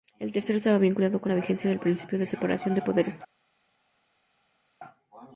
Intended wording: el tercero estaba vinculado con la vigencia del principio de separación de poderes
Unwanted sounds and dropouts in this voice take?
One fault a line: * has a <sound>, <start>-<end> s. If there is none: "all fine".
all fine